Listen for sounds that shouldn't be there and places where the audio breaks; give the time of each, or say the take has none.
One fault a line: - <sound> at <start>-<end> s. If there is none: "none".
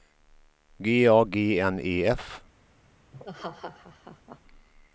- laugh at 3.1-4.4 s